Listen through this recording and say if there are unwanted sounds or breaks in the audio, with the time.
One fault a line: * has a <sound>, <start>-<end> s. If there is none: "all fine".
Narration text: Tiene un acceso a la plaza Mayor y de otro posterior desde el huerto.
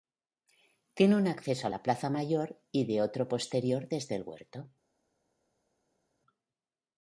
all fine